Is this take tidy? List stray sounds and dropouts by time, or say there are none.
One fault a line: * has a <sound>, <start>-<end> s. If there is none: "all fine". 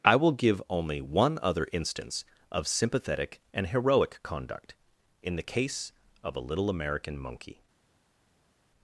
all fine